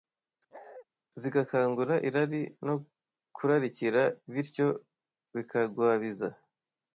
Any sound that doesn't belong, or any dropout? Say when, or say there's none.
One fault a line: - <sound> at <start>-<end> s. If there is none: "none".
- bark at 0.5-0.9 s